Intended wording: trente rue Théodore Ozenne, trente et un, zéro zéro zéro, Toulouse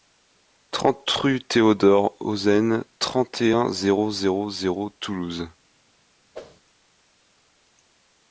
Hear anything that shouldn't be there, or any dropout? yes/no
yes